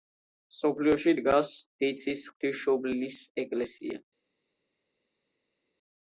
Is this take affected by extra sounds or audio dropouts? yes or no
no